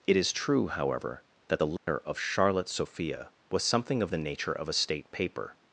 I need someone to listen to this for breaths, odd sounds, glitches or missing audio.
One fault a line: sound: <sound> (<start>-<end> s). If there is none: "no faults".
sound: dropout (1.8-1.9 s)